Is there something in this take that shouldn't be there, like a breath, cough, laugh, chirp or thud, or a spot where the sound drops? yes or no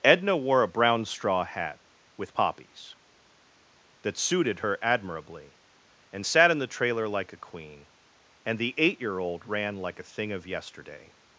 no